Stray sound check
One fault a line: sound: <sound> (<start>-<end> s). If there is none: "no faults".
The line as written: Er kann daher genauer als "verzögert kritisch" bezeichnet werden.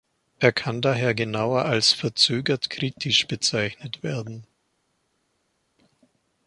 no faults